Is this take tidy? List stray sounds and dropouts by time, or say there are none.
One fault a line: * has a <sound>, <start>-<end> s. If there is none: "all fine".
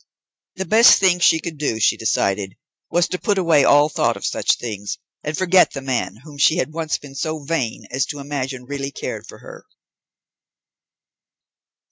all fine